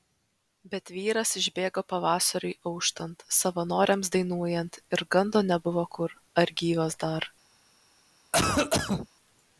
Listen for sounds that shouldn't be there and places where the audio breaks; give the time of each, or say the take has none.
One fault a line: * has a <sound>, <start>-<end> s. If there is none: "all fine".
* has a cough, 8.3-9.1 s